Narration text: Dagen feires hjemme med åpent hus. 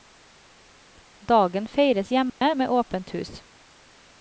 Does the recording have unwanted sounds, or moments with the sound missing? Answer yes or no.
yes